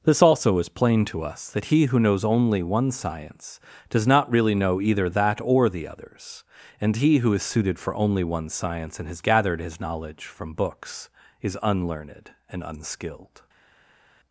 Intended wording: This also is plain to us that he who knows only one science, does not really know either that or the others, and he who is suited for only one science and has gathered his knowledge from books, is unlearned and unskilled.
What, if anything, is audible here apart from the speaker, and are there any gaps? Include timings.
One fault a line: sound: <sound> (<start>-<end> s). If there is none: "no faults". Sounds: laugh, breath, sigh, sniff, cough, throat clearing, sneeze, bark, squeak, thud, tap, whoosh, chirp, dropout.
no faults